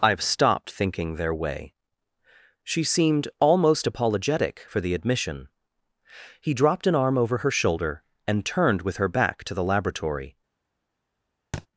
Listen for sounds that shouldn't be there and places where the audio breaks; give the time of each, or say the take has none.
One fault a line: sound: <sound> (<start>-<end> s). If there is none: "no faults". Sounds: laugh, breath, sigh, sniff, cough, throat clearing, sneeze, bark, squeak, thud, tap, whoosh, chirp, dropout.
sound: thud (11.5-11.7 s)